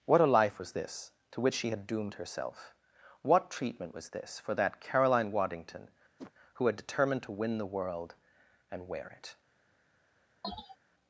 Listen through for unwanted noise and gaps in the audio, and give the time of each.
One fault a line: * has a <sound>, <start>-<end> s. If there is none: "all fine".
* has a whoosh, 6.2-6.3 s
* has a sneeze, 10.4-10.8 s